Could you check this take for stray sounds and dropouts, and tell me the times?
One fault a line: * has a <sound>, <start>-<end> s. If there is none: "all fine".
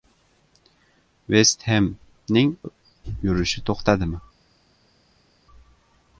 all fine